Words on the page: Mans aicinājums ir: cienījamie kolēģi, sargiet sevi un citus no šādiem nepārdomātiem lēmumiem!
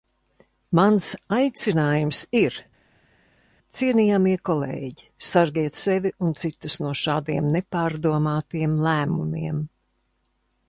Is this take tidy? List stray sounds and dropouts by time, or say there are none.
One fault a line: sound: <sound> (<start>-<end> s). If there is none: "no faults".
no faults